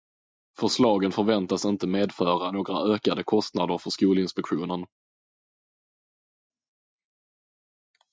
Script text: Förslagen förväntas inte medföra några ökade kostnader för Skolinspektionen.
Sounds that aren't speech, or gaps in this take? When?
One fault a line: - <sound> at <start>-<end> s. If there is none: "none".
none